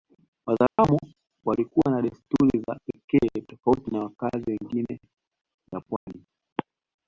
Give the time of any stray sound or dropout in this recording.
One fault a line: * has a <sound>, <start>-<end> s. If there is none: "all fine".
* has a dropout, 0.7-0.8 s
* has a dropout, 6.0-6.1 s